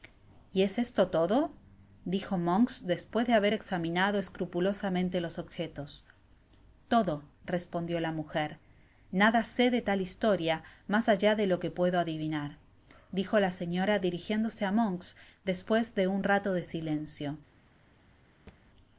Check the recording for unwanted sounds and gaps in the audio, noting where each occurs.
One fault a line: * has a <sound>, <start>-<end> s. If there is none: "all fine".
* has a thud, 18.5-18.6 s